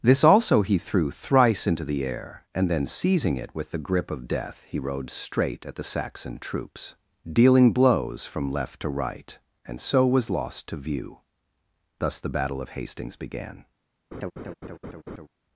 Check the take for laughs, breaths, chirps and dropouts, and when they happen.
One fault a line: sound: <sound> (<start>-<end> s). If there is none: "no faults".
sound: laugh (14.1-15.3 s)